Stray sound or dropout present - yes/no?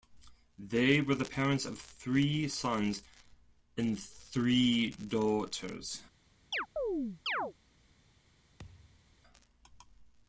yes